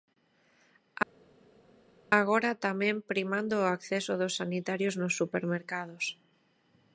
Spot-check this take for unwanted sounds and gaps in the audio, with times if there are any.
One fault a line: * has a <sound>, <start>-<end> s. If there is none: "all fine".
all fine